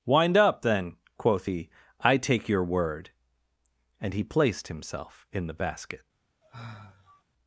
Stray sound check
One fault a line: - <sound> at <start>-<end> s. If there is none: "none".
- sigh at 6.4-7.2 s